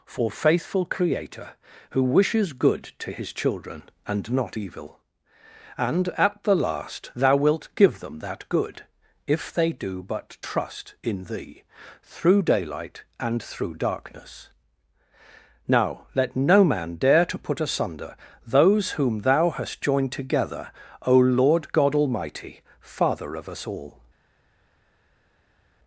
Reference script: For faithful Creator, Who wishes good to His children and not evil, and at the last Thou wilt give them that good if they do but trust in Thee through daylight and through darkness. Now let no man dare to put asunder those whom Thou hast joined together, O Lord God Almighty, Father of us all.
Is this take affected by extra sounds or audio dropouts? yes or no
no